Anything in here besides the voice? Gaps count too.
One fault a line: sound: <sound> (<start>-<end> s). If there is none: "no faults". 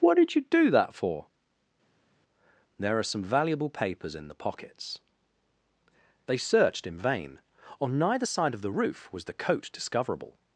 no faults